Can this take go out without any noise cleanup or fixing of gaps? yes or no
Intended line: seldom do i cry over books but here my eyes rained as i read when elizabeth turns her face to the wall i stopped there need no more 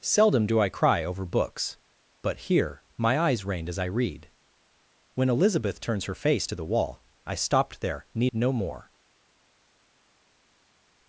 yes